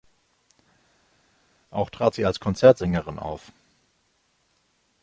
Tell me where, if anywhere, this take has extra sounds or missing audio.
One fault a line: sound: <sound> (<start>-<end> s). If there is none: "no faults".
no faults